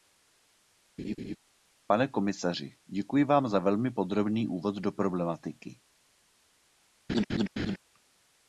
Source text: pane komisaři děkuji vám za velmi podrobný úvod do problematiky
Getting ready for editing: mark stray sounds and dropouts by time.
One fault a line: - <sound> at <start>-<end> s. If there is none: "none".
- laugh at 1.0-1.4 s
- laugh at 7.1-7.8 s